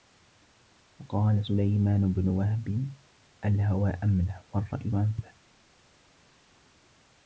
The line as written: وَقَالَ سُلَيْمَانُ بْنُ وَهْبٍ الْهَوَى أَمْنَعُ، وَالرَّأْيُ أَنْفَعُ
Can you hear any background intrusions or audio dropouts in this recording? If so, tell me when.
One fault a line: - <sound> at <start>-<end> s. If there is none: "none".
none